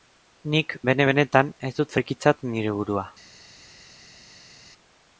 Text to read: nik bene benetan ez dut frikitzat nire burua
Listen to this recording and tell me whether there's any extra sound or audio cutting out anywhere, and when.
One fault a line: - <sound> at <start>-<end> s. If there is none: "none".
none